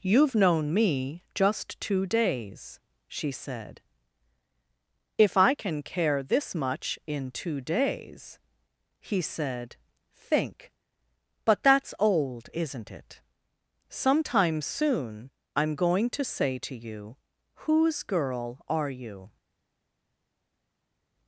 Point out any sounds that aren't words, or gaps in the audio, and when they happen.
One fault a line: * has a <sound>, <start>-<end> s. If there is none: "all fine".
all fine